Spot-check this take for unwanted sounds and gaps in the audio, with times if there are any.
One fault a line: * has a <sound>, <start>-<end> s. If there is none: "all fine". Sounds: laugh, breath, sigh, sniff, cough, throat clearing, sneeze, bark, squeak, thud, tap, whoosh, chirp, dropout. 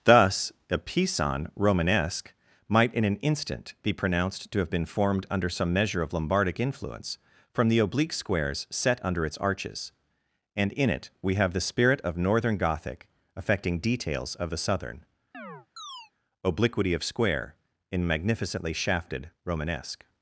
* has a chirp, 15.3-16.1 s